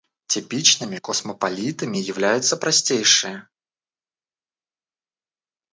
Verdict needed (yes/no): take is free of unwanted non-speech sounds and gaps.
yes